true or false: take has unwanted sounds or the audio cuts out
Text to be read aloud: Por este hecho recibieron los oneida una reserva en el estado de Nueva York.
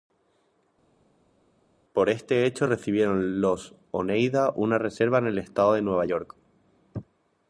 false